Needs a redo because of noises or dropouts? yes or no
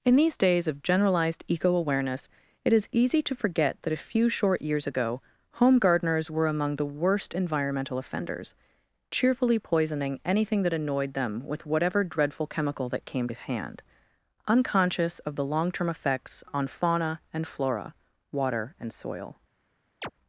yes